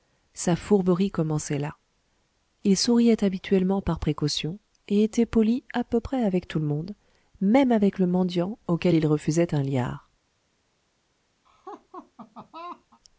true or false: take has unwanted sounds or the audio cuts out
true